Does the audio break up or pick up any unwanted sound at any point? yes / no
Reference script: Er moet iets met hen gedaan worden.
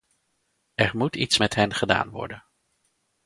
no